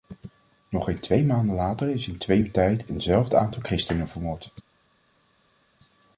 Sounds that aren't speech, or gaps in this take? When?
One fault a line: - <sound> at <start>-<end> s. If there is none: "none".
none